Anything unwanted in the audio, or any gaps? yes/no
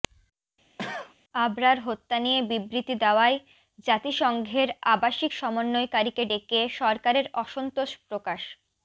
yes